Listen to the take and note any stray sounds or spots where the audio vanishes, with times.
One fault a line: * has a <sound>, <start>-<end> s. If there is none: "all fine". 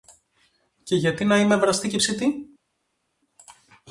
all fine